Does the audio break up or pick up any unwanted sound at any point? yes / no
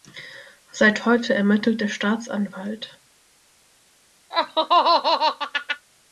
yes